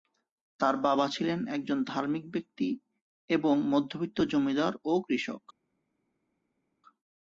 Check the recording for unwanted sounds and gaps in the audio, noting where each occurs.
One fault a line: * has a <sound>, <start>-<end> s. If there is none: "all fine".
all fine